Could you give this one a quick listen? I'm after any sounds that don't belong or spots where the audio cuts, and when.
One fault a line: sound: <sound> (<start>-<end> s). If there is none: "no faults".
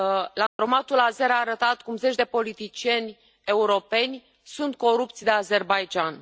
sound: dropout (0.5-0.6 s)